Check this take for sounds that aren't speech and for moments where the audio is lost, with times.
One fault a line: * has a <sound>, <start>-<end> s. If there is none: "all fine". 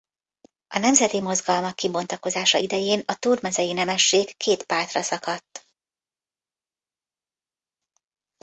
all fine